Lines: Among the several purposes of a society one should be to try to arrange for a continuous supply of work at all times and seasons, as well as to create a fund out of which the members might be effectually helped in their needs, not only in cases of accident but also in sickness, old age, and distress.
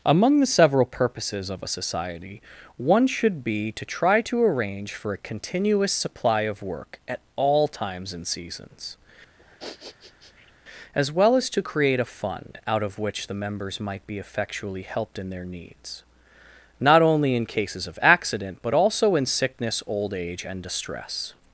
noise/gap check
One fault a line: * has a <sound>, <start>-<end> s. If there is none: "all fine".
* has a sniff, 9.4-10.5 s